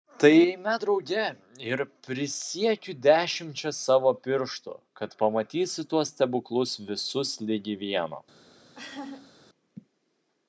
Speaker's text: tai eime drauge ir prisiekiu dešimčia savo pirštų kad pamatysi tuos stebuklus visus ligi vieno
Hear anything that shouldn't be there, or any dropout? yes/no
yes